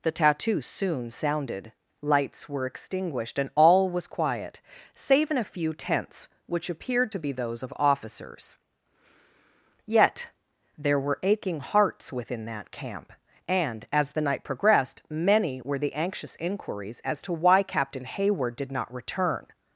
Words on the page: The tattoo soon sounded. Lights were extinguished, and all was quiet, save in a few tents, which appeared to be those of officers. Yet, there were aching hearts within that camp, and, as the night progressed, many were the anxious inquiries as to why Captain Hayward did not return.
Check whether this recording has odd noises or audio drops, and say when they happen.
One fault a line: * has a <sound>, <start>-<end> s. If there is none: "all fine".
all fine